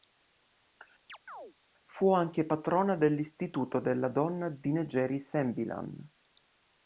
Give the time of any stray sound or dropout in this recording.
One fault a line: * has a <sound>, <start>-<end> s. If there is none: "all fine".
* has a chirp, 1.1-1.5 s